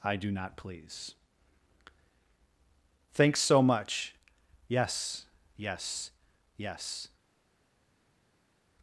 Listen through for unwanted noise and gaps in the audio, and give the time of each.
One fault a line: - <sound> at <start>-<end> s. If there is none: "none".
none